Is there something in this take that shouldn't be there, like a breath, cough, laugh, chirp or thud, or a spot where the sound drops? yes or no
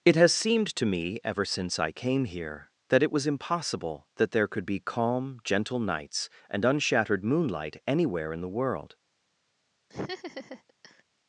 yes